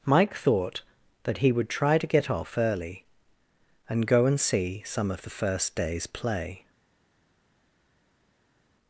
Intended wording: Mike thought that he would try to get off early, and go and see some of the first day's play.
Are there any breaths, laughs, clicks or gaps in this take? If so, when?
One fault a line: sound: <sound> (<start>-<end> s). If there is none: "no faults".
no faults